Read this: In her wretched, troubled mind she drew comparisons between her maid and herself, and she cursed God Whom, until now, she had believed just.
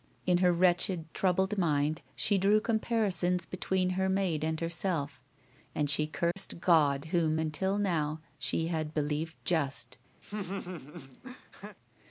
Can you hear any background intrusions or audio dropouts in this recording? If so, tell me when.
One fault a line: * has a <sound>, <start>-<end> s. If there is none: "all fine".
* has a dropout, 6.3-6.4 s
* has a laugh, 10.2-11.8 s